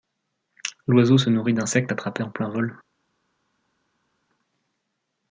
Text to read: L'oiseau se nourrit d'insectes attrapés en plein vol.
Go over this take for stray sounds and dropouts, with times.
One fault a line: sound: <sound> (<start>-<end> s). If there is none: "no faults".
no faults